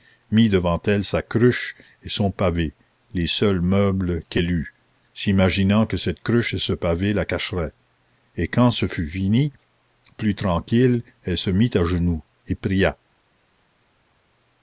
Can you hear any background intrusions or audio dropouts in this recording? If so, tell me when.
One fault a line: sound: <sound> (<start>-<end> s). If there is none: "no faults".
no faults